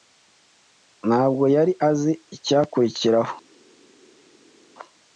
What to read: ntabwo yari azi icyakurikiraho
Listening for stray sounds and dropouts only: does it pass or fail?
pass